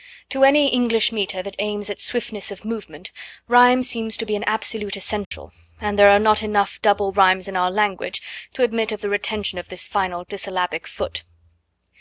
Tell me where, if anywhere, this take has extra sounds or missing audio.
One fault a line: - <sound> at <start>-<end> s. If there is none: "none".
- dropout at 5.2-5.3 s